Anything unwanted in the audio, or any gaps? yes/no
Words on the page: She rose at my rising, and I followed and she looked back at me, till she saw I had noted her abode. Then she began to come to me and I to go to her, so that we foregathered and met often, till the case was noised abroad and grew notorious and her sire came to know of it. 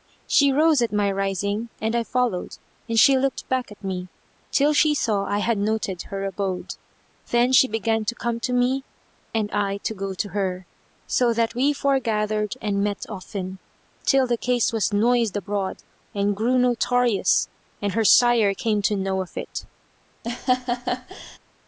yes